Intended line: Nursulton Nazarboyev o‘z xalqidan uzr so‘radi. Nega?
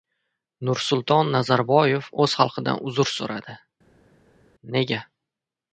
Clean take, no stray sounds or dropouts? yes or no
yes